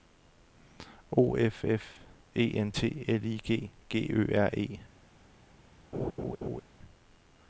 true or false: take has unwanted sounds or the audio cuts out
true